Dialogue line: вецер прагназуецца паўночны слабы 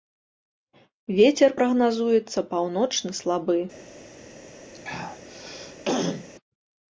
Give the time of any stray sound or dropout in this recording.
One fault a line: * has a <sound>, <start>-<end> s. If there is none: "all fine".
* has a throat clearing, 4.7-6.3 s